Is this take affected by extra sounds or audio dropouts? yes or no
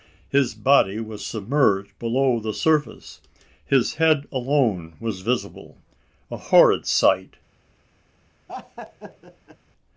yes